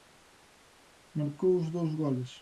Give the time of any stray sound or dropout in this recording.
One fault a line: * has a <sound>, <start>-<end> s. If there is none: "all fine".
all fine